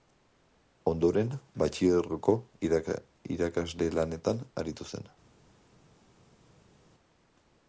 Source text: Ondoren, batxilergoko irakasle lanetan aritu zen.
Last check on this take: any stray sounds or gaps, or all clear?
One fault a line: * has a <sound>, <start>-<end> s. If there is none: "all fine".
all fine